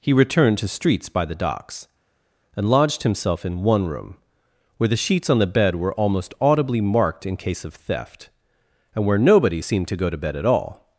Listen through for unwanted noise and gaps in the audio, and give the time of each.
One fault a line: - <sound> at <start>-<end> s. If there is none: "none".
none